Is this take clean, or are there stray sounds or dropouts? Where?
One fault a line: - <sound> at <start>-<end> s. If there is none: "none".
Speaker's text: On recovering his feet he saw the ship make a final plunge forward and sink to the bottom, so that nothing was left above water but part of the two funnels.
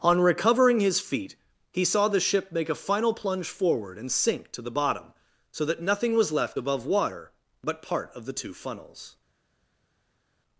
none